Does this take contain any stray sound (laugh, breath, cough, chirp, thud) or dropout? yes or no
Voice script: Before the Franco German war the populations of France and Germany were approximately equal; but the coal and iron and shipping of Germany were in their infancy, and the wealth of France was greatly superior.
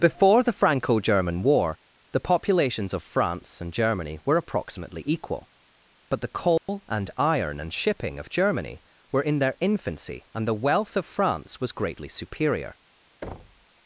yes